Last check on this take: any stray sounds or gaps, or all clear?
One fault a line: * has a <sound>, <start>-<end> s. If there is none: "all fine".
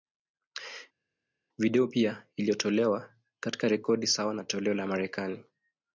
all fine